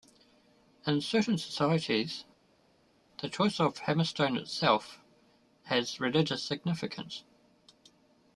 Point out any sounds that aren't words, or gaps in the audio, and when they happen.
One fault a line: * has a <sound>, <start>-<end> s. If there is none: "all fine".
all fine